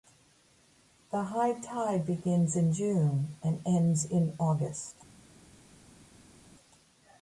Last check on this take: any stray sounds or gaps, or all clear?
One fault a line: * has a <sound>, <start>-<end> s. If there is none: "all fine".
all fine